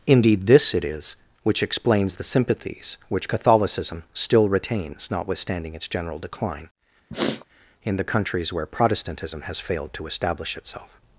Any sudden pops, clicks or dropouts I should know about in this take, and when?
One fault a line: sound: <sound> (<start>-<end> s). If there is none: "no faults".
sound: sniff (7.1-7.4 s)